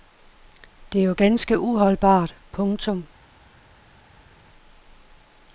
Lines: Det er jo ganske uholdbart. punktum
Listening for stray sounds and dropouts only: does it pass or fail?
pass